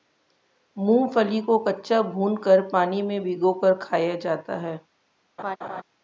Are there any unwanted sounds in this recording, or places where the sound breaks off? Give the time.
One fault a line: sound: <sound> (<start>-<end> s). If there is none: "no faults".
sound: laugh (5.4-5.8 s)